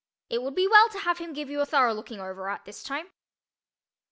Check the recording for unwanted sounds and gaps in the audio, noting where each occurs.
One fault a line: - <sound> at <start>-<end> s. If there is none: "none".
none